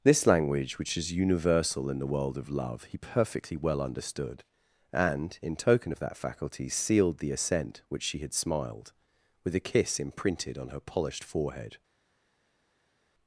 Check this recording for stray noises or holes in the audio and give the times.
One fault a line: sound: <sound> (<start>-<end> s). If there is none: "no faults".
no faults